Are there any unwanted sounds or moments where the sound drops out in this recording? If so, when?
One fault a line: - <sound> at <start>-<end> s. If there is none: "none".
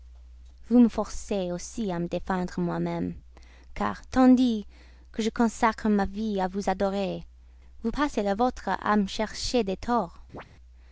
- chirp at 10.3-10.4 s